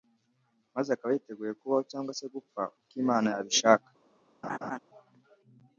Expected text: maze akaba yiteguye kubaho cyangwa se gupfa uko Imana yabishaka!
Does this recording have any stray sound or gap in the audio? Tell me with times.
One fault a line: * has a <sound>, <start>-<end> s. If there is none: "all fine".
* has a laugh, 4.4-4.8 s